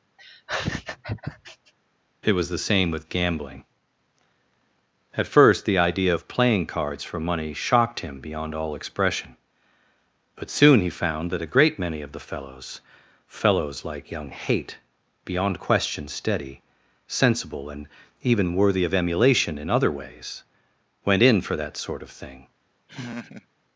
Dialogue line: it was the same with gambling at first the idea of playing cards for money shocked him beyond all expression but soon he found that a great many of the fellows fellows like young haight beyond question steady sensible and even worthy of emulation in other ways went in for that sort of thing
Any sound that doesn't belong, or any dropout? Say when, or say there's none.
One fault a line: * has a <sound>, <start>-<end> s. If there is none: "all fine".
* has a laugh, 0.2-1.7 s
* has a laugh, 22.9-23.5 s